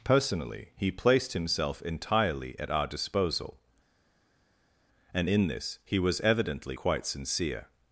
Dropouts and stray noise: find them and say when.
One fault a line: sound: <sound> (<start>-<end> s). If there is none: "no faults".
no faults